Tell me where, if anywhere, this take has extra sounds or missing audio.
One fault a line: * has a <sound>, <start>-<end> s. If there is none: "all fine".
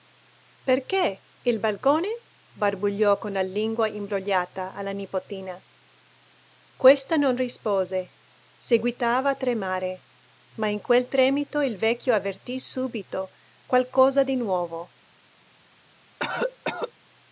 * has a cough, 16.2-16.9 s